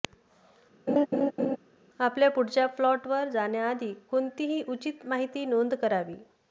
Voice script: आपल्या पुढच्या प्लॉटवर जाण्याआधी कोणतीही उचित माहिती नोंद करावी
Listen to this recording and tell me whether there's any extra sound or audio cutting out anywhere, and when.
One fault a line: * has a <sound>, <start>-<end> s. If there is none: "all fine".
* has a laugh, 0.9-1.6 s